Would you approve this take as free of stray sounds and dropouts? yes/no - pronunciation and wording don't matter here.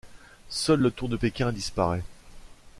yes